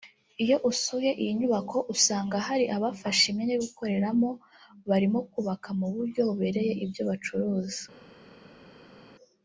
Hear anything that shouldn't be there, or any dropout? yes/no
no